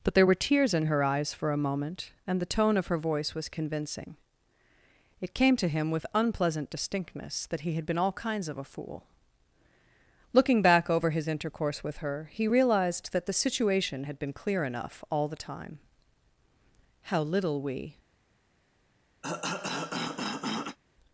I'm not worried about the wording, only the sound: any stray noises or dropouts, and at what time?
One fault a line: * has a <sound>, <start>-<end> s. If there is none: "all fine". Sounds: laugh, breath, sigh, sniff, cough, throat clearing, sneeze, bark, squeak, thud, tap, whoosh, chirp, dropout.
* has a cough, 19.2-20.8 s